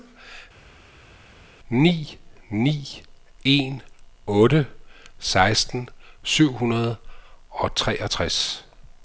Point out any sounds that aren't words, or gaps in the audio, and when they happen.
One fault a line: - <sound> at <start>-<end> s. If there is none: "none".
none